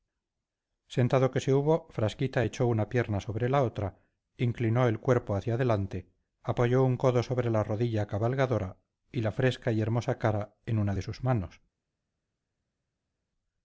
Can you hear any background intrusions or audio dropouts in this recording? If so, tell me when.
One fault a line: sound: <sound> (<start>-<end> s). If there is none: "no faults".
no faults